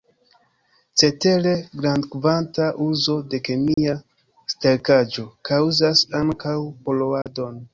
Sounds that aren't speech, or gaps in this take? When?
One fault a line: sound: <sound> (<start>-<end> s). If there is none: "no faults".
sound: dropout (3.7-3.8 s)
sound: dropout (7.2-7.3 s)